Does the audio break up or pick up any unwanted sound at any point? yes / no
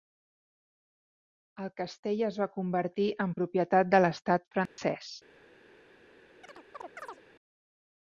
yes